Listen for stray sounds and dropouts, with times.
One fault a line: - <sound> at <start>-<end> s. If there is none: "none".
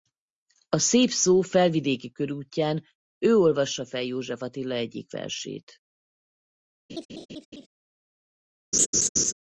- laugh at 6.9-7.7 s
- laugh at 8.7-9.3 s